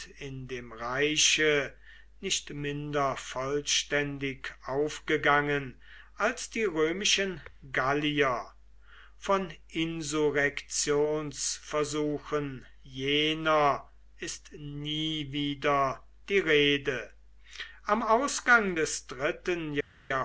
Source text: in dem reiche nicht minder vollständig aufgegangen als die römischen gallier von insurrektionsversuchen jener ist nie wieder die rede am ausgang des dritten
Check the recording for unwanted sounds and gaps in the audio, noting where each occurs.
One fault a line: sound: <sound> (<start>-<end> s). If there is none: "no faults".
no faults